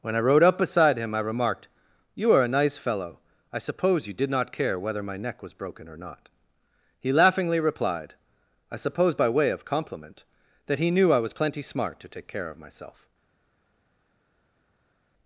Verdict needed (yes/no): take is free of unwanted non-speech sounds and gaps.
yes